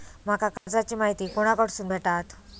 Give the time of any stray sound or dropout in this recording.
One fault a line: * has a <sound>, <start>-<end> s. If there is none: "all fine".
* has a dropout, 0.6-0.7 s